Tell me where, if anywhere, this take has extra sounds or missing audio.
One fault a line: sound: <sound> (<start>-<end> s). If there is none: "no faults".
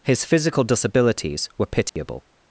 sound: dropout (1.9-2.0 s)